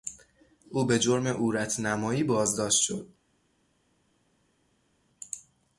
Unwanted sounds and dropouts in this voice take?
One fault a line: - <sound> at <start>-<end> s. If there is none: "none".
none